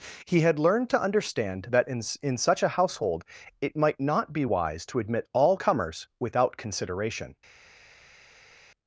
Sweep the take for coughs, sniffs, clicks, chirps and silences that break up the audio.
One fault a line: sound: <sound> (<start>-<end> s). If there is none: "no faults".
no faults